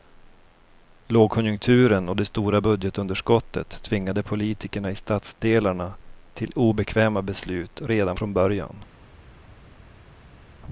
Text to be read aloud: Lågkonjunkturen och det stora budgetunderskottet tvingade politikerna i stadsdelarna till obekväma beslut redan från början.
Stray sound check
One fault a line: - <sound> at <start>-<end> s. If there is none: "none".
none